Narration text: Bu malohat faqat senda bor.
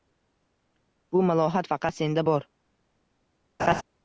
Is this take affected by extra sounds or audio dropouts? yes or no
yes